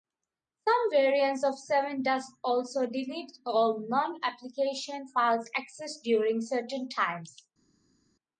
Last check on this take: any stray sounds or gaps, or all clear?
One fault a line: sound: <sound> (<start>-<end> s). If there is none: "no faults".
no faults